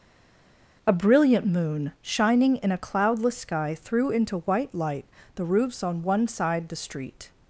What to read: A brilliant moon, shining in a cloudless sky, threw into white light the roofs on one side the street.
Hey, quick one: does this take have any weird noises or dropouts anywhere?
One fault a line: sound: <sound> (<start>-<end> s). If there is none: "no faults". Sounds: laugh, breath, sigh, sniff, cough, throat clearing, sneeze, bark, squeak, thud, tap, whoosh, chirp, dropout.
no faults